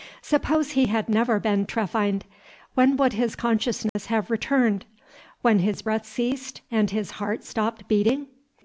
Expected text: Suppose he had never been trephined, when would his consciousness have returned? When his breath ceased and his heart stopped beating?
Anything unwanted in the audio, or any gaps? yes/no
yes